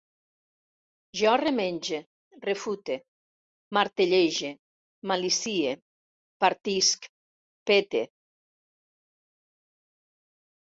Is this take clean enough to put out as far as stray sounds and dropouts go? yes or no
yes